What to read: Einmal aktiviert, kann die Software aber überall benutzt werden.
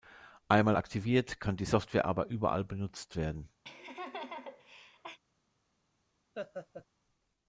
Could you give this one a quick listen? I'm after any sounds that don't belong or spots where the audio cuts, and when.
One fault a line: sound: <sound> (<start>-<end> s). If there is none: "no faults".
sound: laugh (3.6-5.2 s)
sound: laugh (6.3-6.9 s)